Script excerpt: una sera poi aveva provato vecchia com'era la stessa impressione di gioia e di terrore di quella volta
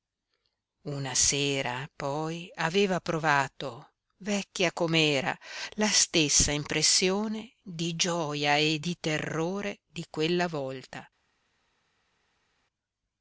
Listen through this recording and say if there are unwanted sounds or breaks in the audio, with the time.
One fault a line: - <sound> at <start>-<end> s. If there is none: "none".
none